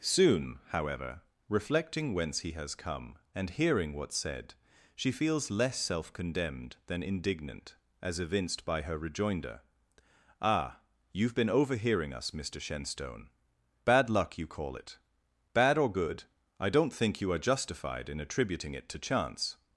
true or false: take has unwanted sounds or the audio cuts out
false